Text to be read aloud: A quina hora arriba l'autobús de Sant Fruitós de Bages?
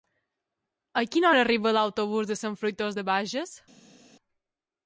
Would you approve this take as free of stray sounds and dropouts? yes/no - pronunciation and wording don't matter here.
yes